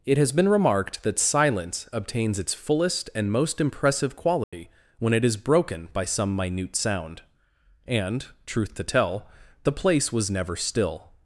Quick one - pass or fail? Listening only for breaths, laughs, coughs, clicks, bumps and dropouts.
fail